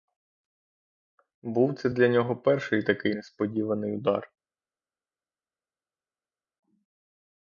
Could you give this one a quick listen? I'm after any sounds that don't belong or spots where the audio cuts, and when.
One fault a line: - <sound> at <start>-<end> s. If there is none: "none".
none